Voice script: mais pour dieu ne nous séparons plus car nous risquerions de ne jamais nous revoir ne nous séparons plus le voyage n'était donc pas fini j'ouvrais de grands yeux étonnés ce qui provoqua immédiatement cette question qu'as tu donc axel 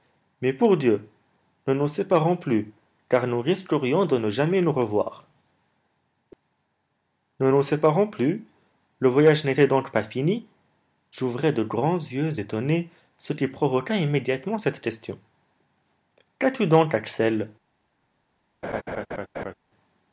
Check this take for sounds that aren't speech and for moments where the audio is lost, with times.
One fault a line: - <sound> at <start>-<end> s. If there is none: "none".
- laugh at 18.6-19.5 s